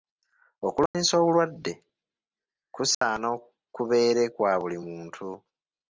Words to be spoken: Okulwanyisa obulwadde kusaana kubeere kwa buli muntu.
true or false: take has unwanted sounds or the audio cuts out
true